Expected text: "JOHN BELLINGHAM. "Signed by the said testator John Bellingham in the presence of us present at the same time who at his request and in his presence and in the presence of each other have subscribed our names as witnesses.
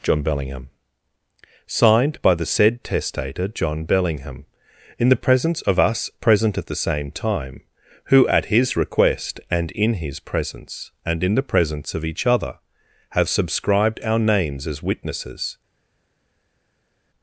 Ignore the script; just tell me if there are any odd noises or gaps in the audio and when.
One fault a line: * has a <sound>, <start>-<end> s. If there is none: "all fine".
all fine